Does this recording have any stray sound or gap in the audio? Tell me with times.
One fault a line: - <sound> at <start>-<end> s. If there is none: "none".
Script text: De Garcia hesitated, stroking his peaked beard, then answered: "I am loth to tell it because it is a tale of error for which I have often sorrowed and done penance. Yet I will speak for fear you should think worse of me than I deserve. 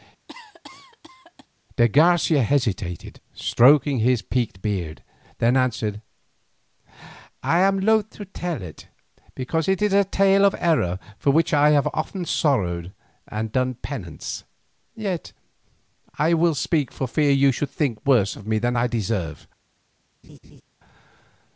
- cough at 0.3-1.5 s
- laugh at 20.2-20.6 s